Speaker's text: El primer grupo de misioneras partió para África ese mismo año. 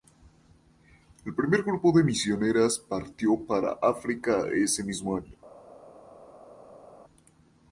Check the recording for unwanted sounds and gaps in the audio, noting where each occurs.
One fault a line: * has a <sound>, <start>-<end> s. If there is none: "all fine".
all fine